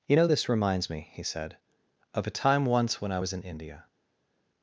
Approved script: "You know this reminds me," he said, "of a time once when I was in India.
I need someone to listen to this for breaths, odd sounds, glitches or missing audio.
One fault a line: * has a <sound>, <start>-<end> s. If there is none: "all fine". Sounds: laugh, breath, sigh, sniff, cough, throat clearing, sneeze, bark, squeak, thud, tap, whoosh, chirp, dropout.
all fine